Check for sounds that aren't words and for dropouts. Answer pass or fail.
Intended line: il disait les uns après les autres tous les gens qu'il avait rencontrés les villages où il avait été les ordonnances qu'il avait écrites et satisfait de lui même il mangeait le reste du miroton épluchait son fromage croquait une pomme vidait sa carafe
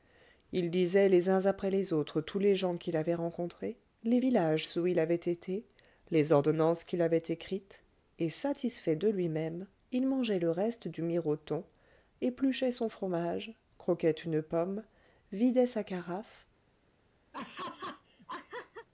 fail